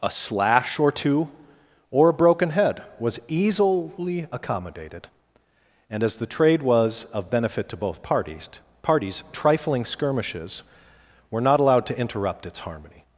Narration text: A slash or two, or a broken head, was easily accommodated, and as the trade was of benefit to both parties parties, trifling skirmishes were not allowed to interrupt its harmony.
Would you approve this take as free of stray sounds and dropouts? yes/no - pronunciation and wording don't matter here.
yes